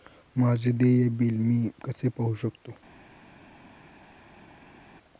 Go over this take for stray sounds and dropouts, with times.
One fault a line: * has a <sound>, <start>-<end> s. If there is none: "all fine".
all fine